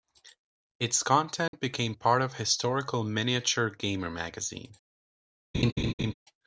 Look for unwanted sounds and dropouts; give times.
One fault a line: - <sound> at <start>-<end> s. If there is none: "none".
- dropout at 1.5-1.5 s
- laugh at 5.5-6.1 s